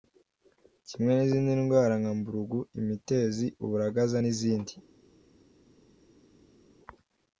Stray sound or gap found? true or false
false